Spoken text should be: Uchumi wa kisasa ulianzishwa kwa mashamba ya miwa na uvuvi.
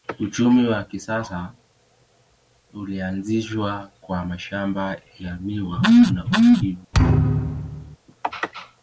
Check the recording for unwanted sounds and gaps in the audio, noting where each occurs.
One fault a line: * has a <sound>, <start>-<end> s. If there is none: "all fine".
* has a thud, 6.9-8.0 s